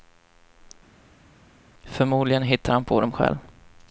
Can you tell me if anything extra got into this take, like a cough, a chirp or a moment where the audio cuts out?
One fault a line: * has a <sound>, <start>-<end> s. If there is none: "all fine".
all fine